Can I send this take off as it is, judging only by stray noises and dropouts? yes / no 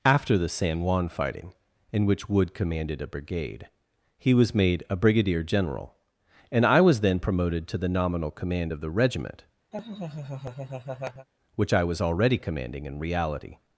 no